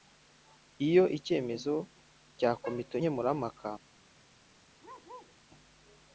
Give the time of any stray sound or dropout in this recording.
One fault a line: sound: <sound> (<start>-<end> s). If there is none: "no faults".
sound: bark (4.8-5.4 s)